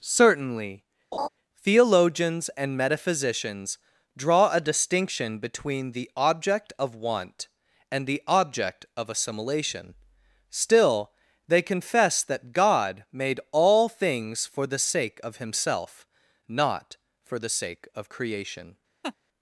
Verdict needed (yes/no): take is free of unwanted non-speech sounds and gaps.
no